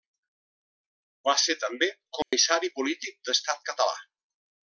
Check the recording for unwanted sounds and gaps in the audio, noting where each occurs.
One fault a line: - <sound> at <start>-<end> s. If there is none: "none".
- dropout at 2.2-2.3 s